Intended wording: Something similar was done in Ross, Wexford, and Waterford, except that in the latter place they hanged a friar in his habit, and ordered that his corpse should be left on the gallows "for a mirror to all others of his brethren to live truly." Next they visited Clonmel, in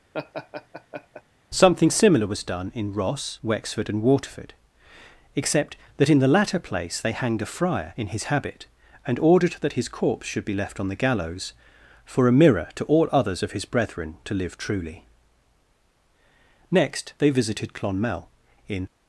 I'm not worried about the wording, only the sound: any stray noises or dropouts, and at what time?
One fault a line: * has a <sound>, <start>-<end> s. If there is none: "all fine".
* has a laugh, 0.1-1.2 s